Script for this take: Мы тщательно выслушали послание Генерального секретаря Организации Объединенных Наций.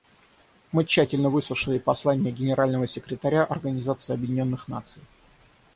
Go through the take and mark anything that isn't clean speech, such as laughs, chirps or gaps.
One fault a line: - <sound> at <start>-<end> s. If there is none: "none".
none